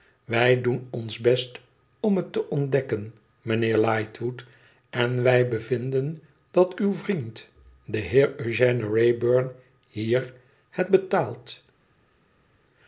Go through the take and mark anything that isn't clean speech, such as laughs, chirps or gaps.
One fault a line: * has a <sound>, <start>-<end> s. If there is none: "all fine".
all fine